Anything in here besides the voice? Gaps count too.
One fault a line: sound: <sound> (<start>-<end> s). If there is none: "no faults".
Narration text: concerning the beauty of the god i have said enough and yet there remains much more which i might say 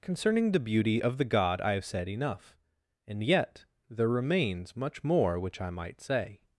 no faults